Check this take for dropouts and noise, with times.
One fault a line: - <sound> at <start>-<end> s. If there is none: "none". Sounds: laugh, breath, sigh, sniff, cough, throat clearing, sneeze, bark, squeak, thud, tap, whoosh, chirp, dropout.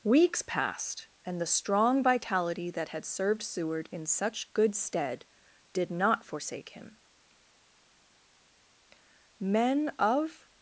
none